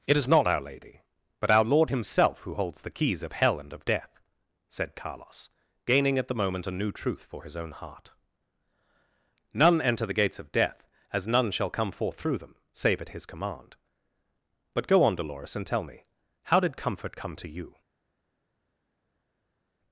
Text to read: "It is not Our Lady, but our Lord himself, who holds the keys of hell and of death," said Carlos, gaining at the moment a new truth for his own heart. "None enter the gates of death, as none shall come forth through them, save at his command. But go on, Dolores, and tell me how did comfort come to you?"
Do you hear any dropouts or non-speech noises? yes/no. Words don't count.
no